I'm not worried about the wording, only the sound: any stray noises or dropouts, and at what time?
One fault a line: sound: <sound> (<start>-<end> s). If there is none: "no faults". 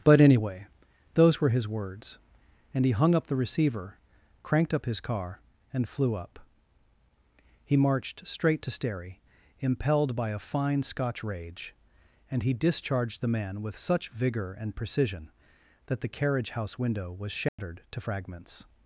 sound: dropout (17.5-17.6 s)